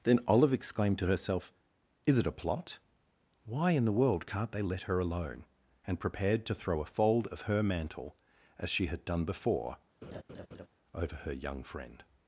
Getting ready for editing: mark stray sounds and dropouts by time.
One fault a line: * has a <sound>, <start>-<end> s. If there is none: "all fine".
* has a laugh, 10.0-10.7 s